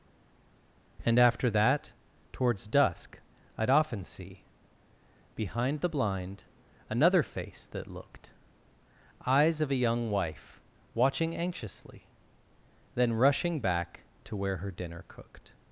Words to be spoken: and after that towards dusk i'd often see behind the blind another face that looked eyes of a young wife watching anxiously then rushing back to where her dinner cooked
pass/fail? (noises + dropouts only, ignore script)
pass